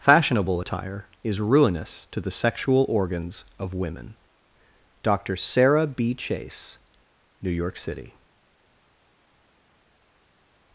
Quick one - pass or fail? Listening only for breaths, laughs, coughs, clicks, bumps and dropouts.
pass